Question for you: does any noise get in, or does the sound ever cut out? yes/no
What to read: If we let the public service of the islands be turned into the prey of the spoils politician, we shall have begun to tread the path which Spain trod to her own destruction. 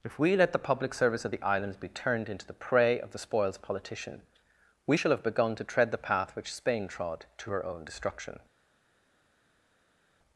no